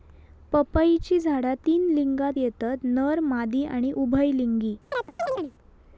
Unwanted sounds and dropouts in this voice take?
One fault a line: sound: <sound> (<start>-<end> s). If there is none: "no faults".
sound: chirp (4.9-5.5 s)